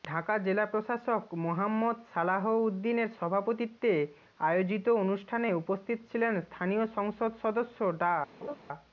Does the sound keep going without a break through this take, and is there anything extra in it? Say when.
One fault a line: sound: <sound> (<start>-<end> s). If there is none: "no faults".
sound: laugh (8.4-8.6 s)